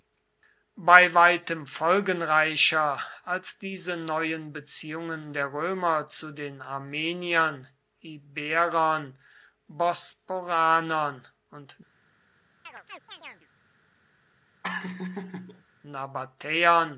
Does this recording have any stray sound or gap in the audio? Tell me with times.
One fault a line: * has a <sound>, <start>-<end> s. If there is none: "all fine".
* has a chirp, 12.7-13.5 s
* has a laugh, 14.6-15.6 s